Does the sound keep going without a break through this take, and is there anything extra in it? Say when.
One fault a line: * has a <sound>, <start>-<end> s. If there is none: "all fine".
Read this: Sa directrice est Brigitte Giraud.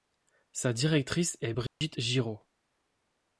* has a dropout, 1.7-1.8 s